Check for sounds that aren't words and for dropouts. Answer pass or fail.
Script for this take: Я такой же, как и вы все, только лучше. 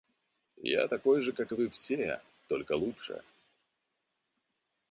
pass